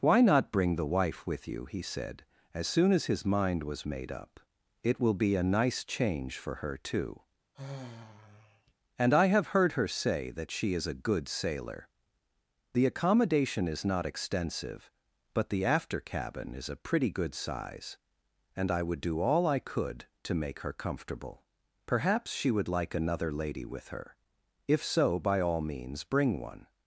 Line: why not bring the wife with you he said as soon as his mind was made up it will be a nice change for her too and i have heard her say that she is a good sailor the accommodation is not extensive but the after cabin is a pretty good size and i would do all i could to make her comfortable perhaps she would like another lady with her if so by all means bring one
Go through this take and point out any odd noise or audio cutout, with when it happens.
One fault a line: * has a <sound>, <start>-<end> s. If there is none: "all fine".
* has a sigh, 7.5-8.7 s